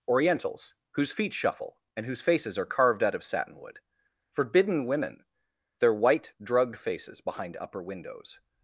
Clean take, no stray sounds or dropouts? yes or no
yes